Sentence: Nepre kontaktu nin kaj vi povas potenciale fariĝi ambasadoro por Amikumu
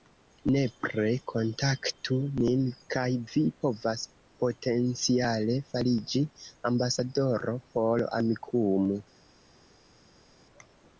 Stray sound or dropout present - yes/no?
no